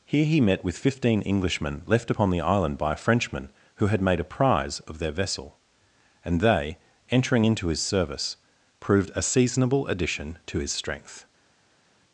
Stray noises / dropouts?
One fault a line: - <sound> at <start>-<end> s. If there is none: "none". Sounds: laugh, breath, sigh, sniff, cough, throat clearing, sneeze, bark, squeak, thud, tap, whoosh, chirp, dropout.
none